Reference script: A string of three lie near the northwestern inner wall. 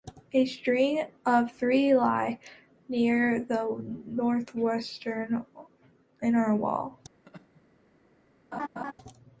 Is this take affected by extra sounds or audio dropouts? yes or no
yes